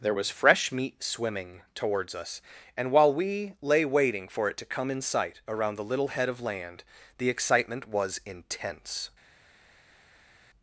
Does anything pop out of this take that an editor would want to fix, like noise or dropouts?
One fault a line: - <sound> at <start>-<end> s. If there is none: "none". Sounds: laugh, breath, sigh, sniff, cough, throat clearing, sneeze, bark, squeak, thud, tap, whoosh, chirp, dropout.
none